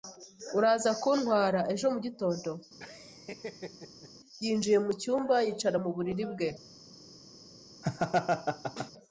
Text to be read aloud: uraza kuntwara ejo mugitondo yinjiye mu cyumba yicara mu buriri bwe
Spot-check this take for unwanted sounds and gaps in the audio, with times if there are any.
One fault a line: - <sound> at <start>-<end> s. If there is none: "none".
- laugh at 2.8-4.1 s
- laugh at 7.8-8.9 s